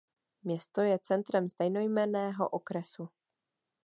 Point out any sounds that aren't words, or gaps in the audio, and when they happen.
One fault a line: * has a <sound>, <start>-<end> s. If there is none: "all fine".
all fine